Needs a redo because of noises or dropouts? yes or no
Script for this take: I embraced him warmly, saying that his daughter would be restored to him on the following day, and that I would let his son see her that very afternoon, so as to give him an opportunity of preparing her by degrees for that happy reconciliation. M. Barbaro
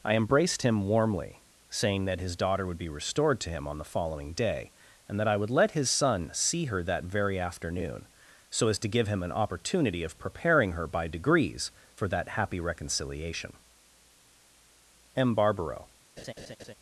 yes